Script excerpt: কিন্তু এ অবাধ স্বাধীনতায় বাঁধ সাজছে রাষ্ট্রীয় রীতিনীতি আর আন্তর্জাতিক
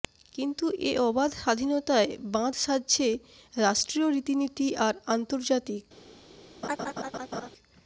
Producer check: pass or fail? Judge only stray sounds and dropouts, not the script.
fail